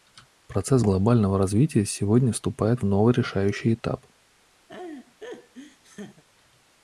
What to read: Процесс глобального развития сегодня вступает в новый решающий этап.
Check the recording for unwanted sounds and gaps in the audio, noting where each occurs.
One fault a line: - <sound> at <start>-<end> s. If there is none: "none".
- laugh at 4.7-6.2 s